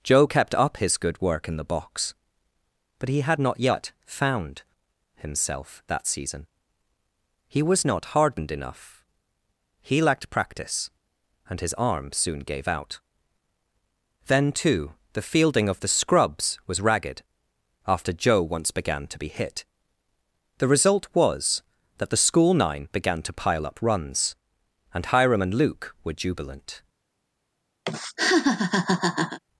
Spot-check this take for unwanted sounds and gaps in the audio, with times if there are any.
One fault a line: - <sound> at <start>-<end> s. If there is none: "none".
- laugh at 27.8-29.4 s